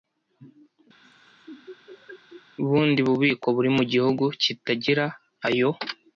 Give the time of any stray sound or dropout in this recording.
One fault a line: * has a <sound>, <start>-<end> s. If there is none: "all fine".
* has a laugh, 1.0-2.4 s